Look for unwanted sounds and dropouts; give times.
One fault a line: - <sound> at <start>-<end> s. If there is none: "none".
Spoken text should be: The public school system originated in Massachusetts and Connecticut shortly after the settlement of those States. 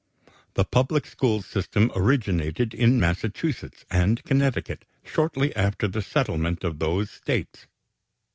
none